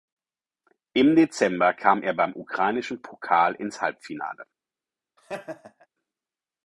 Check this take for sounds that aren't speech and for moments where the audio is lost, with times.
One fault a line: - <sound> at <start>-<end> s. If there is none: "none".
- laugh at 5.2-5.9 s